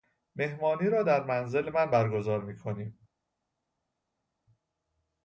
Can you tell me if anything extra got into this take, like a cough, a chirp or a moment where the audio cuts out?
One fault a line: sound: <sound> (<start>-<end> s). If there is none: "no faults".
no faults